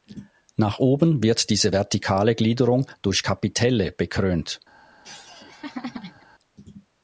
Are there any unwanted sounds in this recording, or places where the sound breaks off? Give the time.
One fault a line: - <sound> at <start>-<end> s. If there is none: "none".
- laugh at 5.0-6.3 s